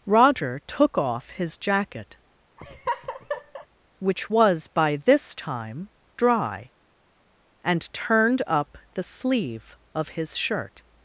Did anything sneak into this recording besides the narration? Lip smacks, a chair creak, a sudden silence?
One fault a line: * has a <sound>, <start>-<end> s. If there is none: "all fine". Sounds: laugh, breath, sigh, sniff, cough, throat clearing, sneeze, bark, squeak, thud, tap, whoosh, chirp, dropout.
* has a laugh, 2.6-3.7 s